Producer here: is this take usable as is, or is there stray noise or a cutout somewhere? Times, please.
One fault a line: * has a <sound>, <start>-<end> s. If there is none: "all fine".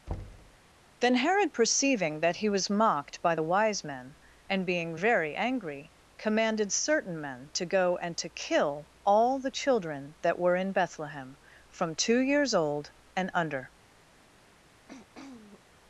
* has a thud, 0.1-0.6 s
* has a throat clearing, 14.9-15.6 s